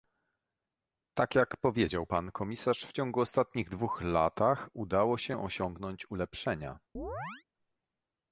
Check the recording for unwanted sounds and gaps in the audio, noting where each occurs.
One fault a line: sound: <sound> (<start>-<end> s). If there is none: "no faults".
sound: chirp (6.9-7.4 s)